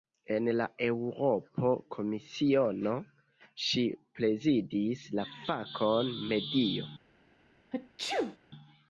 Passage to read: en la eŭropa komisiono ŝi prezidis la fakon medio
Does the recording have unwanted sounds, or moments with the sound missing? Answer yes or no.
yes